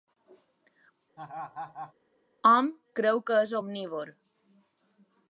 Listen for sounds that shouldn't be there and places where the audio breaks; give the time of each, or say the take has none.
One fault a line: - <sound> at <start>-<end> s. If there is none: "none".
- laugh at 1.2-1.9 s